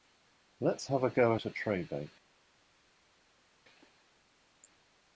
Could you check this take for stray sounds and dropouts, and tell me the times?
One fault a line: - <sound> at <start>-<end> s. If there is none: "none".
none